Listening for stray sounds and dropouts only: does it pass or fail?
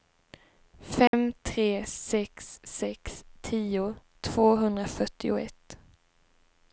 fail